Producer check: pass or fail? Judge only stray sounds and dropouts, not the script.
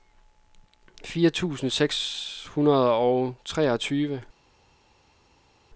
pass